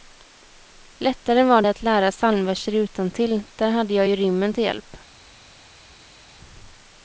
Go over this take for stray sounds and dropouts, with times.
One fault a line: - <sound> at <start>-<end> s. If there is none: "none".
none